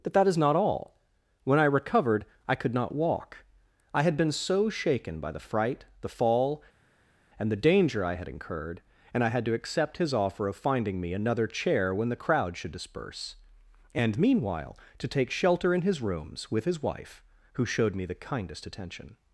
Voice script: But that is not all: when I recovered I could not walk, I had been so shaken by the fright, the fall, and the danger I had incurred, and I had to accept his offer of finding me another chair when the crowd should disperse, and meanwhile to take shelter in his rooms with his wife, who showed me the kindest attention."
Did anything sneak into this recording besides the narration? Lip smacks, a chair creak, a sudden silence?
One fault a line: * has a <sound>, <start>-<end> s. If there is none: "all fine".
all fine